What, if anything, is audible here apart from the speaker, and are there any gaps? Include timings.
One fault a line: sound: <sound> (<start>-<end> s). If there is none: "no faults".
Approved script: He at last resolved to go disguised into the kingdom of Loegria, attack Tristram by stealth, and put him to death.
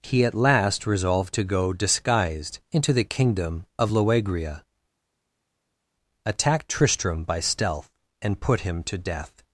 no faults